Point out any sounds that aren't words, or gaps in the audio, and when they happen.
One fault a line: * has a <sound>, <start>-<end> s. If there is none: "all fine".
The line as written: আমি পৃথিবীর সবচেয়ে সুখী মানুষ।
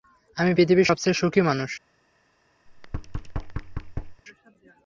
* has a thud, 2.7-4.2 s